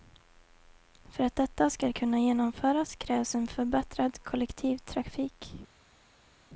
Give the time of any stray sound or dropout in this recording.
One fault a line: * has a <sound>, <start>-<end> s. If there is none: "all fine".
all fine